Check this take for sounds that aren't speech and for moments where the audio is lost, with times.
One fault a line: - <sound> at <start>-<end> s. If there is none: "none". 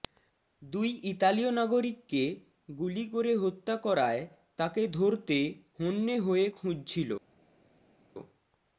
none